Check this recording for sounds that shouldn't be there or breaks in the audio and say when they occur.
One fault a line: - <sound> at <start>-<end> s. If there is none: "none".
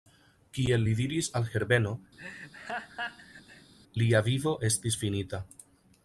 - laugh at 2.2-3.7 s